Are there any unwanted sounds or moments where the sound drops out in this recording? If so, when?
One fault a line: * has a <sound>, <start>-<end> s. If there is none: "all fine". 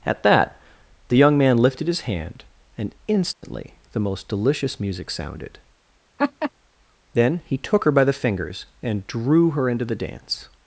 * has a dropout, 3.3-3.4 s
* has a laugh, 6.2-6.5 s